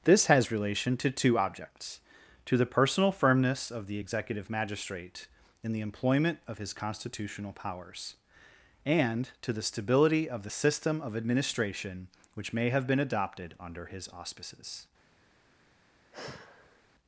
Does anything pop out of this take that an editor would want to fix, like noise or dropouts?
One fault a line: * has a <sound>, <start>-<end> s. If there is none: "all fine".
* has a sigh, 16.1-16.8 s